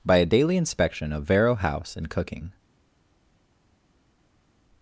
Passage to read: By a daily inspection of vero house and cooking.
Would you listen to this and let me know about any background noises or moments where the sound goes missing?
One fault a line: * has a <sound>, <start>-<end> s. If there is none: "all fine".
all fine